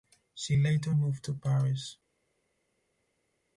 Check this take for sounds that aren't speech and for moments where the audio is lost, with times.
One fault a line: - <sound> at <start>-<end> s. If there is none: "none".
none